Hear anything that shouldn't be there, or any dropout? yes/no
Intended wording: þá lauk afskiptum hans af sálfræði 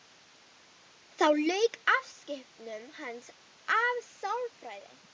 no